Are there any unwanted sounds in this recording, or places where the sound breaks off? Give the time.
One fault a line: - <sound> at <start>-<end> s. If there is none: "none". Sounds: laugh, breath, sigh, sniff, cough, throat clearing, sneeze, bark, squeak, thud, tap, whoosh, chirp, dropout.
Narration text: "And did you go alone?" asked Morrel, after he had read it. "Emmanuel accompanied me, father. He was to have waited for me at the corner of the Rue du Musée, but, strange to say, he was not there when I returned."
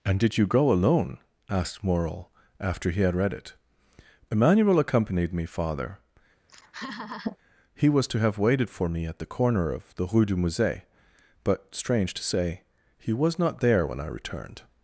- laugh at 6.5-7.4 s